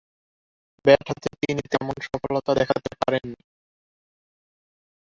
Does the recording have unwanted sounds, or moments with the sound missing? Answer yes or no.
no